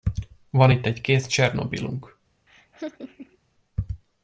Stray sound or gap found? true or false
true